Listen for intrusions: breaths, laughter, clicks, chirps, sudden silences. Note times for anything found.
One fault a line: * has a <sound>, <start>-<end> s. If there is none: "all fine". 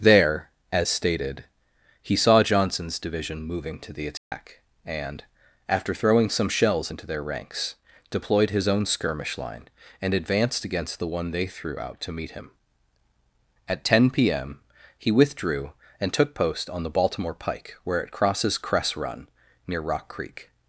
* has a dropout, 4.2-4.3 s